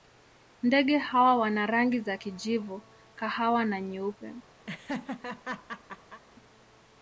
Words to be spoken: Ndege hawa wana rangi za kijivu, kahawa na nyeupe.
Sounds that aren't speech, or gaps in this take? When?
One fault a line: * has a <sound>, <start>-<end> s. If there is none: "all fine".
* has a laugh, 4.7-6.2 s